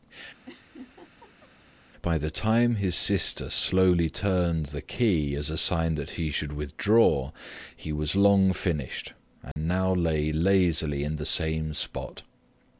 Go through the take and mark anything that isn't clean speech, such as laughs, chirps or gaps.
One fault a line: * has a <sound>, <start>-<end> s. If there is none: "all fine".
* has a laugh, 0.5-1.5 s
* has a dropout, 9.5-9.6 s